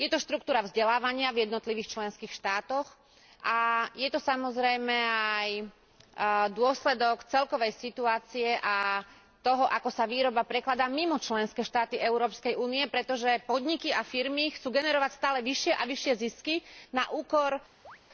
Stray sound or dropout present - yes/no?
yes